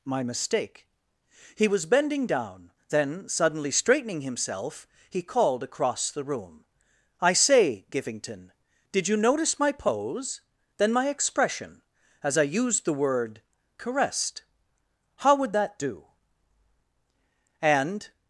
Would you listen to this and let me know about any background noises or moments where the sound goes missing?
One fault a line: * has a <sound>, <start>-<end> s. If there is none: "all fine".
all fine